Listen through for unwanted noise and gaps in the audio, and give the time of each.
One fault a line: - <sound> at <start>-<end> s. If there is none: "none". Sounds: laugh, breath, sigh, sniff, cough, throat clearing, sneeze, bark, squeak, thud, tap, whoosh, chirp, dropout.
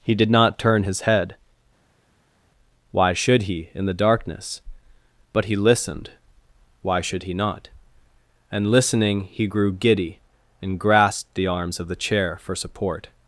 none